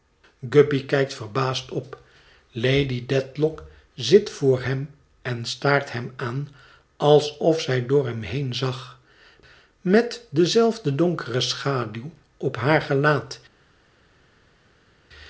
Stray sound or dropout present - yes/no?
no